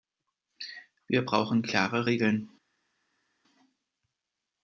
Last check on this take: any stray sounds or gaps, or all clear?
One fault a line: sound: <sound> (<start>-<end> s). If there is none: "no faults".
no faults